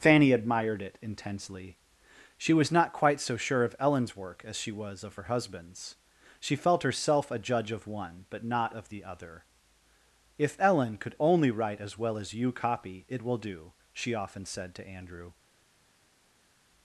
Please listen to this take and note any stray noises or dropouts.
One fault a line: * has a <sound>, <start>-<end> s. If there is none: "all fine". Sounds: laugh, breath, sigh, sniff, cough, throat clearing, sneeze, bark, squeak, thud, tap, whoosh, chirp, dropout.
all fine